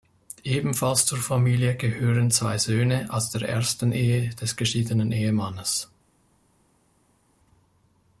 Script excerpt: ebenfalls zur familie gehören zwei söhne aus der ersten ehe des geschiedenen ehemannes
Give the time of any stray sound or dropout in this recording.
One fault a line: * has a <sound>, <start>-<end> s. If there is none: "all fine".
all fine